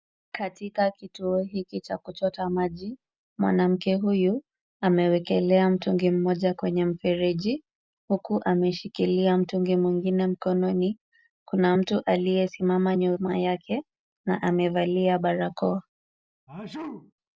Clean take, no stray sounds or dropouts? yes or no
no